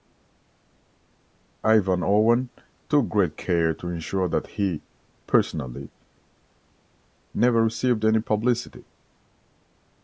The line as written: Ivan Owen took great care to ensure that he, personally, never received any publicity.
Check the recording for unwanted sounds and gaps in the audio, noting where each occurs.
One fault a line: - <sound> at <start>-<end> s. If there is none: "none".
none